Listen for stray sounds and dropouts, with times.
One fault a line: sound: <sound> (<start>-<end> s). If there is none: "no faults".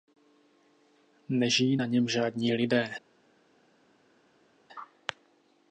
no faults